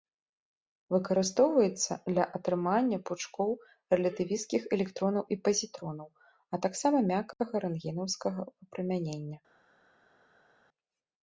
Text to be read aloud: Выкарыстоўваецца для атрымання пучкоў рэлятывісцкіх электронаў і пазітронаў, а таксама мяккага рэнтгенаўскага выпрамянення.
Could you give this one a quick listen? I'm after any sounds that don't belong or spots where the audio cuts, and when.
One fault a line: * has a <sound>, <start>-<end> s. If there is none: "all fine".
all fine